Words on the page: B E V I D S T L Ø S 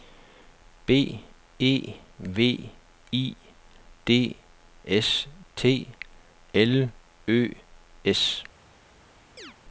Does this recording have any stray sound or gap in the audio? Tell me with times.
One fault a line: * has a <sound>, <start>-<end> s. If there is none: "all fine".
* has a chirp, 9.4-9.6 s